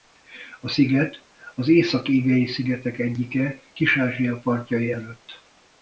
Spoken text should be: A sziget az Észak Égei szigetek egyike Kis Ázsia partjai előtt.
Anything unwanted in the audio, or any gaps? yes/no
no